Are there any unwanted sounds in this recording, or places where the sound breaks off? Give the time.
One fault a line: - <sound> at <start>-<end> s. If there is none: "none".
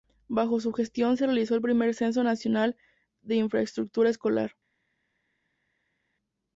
none